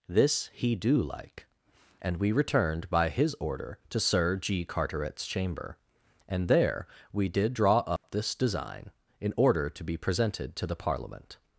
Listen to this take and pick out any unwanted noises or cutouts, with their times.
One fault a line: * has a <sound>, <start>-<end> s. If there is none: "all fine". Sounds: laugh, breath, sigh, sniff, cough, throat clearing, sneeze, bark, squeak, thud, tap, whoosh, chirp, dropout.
* has a dropout, 8.0-8.0 s